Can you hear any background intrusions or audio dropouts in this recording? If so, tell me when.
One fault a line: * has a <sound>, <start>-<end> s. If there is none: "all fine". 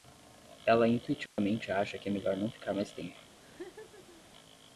* has a dropout, 1.3-1.4 s
* has a laugh, 3.4-4.2 s